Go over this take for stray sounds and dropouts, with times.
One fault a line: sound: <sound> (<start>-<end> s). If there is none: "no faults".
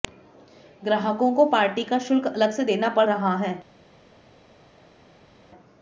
no faults